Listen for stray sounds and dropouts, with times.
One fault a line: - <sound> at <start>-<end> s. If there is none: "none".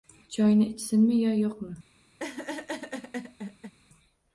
- laugh at 2.2-3.7 s